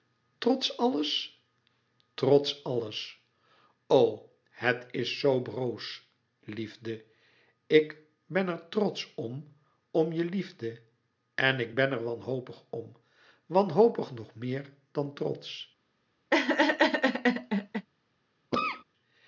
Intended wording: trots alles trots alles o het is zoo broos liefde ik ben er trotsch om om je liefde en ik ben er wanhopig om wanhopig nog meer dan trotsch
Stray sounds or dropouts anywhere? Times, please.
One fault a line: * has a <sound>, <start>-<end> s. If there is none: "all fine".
* has a laugh, 16.3-17.9 s
* has a cough, 18.5-18.8 s